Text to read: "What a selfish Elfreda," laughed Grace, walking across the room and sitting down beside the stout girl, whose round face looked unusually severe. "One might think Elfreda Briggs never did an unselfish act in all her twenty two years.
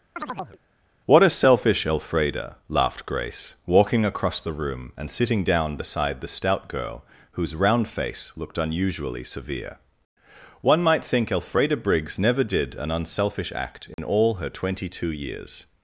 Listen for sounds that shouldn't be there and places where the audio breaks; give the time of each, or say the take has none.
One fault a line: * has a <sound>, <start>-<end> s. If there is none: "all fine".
* has a chirp, 0.2-0.6 s
* has a dropout, 13.9-14.0 s